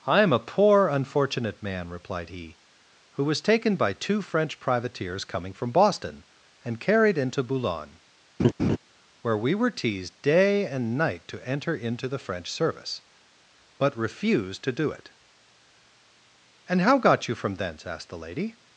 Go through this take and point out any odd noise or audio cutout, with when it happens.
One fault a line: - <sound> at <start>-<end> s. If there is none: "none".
- laugh at 8.4-8.8 s